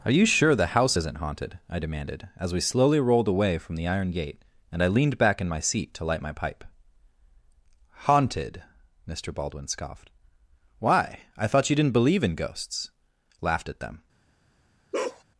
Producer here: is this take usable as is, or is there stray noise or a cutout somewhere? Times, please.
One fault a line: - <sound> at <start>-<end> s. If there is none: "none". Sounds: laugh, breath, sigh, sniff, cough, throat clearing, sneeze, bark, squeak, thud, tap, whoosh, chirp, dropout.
- bark at 14.9-15.2 s